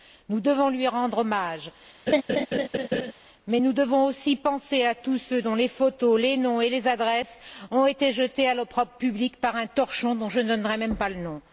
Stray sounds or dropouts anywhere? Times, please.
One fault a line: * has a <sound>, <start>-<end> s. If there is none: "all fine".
* has a laugh, 2.1-3.1 s